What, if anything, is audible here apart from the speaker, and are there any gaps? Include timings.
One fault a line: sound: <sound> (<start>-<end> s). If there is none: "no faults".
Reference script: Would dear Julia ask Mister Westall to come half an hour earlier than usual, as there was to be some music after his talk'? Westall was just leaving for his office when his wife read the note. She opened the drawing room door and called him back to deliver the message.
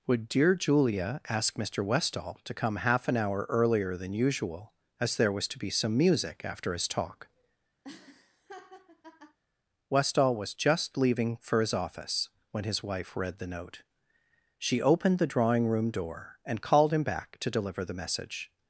sound: laugh (7.8-9.4 s)